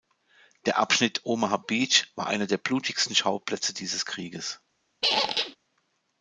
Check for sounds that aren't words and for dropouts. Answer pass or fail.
fail